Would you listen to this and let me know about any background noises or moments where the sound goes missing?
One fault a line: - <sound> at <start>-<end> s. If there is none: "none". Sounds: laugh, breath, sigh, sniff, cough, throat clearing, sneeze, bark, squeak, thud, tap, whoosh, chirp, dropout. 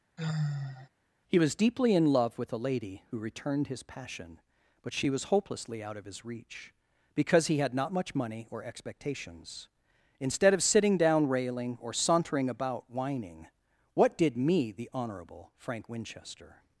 - sigh at 0.2-0.9 s